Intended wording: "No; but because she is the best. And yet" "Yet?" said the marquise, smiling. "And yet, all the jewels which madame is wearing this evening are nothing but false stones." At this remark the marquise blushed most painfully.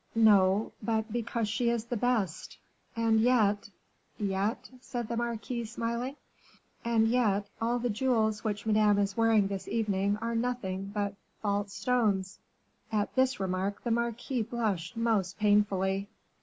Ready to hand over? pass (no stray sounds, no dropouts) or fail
pass